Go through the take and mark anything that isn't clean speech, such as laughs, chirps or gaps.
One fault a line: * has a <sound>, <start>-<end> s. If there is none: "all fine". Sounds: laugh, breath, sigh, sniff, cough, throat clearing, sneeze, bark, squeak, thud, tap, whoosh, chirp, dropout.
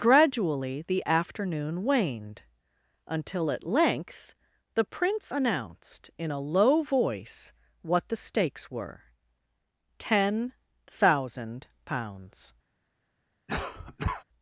* has a cough, 13.5-14.2 s